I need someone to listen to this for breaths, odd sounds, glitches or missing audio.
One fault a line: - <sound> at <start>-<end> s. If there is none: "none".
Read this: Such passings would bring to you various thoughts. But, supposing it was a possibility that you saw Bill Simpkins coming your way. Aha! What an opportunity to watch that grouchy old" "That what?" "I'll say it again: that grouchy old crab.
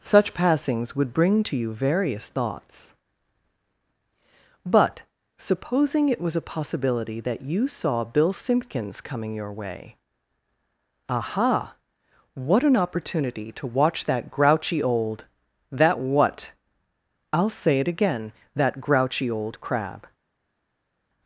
none